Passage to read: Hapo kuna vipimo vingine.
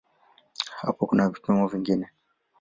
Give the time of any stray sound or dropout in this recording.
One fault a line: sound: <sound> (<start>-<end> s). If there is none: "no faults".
no faults